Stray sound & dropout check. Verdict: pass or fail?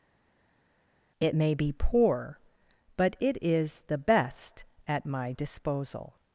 pass